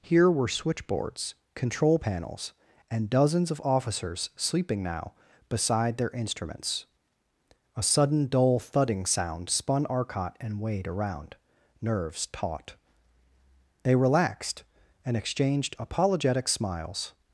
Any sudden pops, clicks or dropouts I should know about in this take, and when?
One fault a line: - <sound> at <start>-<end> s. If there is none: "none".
none